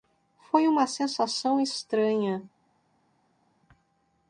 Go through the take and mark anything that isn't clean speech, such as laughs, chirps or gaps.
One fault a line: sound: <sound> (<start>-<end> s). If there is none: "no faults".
no faults